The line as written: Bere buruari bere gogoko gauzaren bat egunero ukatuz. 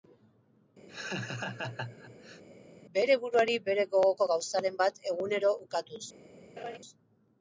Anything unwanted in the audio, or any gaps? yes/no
yes